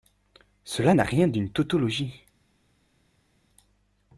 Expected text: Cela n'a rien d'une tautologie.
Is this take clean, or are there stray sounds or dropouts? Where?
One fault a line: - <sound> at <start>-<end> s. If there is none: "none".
none